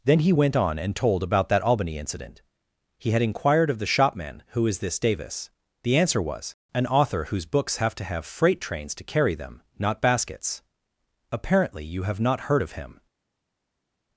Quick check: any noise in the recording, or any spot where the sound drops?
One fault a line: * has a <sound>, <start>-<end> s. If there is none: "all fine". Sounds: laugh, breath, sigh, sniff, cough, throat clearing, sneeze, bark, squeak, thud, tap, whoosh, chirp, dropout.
all fine